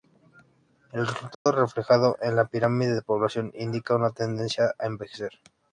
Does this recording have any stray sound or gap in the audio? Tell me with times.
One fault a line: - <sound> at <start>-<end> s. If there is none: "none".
- dropout at 1.3-1.5 s